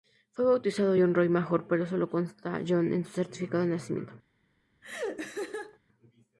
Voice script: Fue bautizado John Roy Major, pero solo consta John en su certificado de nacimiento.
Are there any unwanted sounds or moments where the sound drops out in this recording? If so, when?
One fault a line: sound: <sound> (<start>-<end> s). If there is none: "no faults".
sound: laugh (4.8-5.8 s)